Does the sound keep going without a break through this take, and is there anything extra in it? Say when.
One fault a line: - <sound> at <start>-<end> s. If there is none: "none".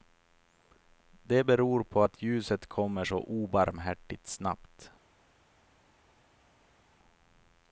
none